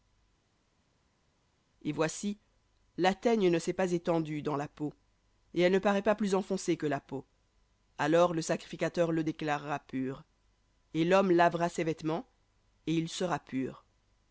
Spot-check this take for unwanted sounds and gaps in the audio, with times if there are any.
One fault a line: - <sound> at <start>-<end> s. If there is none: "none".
none